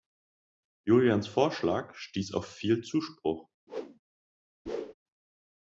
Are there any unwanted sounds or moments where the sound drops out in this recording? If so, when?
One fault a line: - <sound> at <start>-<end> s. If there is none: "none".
- whoosh at 3.7-4.0 s
- whoosh at 4.7-4.9 s